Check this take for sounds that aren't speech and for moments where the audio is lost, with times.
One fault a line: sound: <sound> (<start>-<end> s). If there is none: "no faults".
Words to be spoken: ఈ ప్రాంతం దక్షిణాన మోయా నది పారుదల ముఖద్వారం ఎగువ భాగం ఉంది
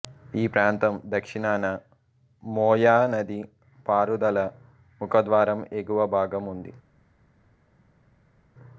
no faults